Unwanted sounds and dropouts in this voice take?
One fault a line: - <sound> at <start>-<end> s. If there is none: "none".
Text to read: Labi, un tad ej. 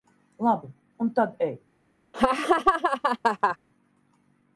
- laugh at 2.1-3.6 s